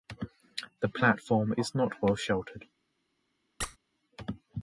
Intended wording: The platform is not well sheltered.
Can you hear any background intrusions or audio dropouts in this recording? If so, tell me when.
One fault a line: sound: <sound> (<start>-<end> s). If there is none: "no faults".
sound: squeak (3.6-3.8 s)